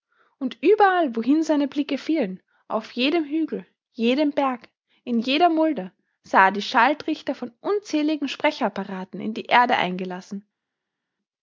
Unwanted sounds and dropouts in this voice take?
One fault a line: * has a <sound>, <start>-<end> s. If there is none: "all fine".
all fine